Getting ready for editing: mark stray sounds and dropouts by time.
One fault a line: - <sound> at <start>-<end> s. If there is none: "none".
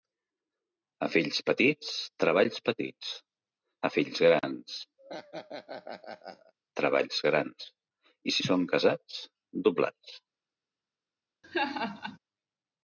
- laugh at 5.0-6.5 s
- laugh at 11.4-12.2 s